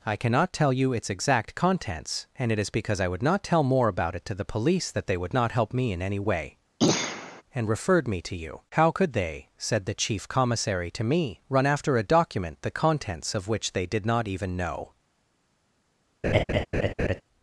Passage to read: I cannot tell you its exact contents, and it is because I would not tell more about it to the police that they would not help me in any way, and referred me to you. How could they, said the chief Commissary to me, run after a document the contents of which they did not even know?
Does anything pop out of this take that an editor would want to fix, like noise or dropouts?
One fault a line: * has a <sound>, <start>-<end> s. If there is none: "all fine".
* has a throat clearing, 6.8-7.4 s
* has a laugh, 16.2-17.2 s